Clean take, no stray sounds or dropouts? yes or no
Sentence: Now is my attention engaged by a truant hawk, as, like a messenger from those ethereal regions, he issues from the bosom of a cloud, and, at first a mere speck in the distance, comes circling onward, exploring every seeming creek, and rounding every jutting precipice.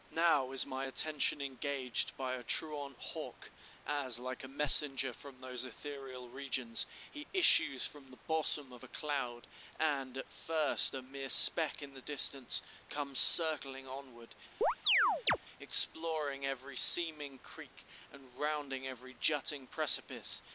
no